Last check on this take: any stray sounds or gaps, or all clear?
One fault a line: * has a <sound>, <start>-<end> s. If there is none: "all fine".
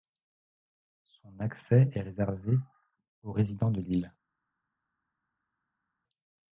all fine